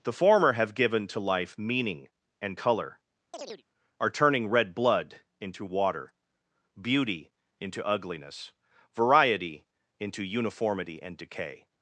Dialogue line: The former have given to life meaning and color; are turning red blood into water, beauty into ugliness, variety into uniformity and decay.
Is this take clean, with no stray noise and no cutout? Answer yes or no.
no